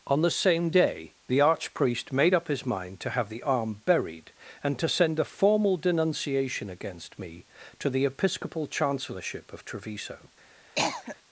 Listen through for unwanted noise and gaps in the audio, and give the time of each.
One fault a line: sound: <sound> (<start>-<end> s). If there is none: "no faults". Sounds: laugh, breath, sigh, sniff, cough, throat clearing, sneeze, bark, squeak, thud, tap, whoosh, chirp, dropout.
sound: cough (10.7-11.2 s)